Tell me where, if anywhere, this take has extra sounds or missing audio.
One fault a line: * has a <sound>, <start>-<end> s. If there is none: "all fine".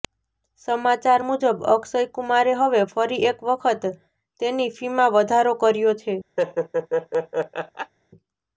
* has a laugh, 6.4-7.9 s